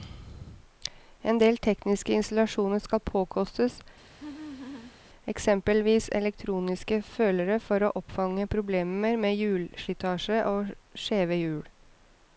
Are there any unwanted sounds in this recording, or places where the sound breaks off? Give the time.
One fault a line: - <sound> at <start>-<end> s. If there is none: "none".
- laugh at 4.1-5.0 s